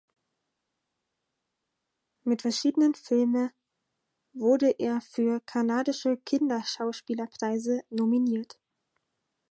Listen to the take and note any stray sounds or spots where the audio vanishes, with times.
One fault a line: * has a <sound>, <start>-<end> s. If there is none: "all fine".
all fine